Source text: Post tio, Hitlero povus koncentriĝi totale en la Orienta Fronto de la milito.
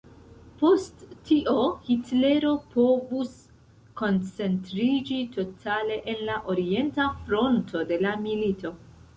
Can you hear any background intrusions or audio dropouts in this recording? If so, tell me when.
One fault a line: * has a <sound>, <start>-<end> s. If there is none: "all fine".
all fine